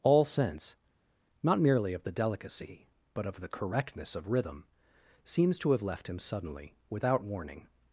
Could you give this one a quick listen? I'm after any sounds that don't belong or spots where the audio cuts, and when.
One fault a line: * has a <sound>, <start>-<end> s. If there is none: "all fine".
all fine